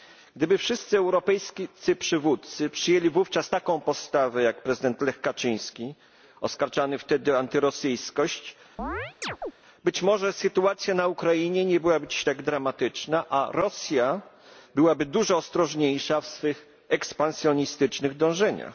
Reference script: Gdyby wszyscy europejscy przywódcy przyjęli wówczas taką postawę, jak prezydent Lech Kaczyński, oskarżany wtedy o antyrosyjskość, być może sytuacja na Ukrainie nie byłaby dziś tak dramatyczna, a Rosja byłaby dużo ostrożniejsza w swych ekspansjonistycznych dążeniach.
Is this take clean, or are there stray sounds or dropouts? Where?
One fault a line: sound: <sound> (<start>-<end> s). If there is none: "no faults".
sound: chirp (8.8-9.5 s)